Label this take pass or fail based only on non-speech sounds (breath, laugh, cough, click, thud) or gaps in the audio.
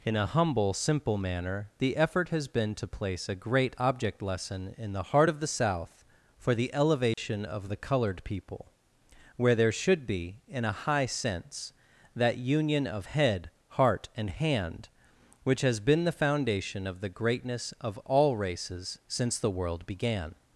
fail